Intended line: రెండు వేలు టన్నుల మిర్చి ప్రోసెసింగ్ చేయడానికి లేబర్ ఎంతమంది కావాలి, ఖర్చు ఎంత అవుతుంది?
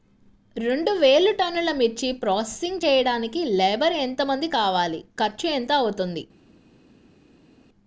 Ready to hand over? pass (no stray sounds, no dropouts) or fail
pass